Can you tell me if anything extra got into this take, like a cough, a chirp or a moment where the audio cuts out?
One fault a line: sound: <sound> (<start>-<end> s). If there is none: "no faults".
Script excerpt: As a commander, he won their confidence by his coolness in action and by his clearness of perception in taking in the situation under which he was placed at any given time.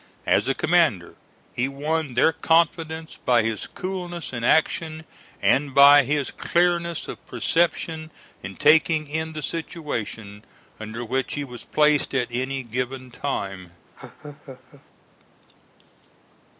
sound: laugh (14.0-14.8 s)